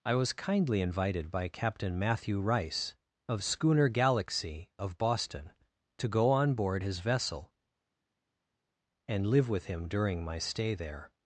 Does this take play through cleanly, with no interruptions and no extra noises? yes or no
yes